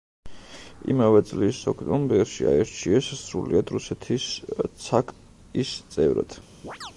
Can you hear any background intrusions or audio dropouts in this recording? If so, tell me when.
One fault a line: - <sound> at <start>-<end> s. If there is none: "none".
- chirp at 6.6-6.9 s